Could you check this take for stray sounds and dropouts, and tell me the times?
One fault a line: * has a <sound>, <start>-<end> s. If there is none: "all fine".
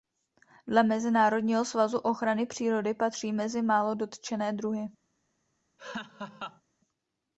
* has a laugh, 5.8-6.6 s